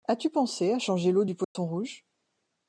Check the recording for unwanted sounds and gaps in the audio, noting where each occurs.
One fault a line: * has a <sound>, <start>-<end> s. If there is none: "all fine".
* has a dropout, 1.4-1.6 s